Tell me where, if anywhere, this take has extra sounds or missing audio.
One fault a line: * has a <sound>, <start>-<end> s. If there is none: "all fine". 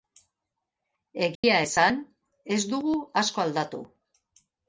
* has a dropout, 1.3-1.4 s